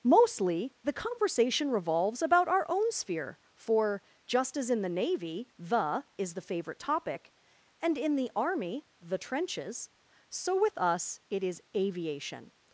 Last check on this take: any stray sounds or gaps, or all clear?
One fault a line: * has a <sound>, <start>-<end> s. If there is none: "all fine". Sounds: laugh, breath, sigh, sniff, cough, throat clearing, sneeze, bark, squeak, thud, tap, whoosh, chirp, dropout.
all fine